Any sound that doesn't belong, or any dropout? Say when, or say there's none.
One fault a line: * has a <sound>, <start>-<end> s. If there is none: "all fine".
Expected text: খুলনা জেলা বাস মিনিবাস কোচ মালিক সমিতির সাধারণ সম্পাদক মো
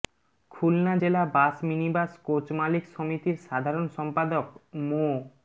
all fine